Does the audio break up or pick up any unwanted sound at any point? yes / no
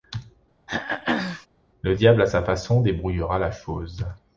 yes